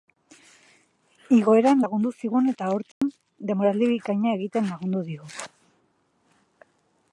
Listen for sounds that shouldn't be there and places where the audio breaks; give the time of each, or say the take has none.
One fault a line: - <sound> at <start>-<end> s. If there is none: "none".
- dropout at 2.9-3.0 s